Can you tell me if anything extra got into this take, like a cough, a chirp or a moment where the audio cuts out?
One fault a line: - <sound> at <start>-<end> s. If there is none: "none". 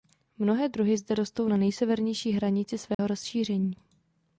- dropout at 2.9-3.0 s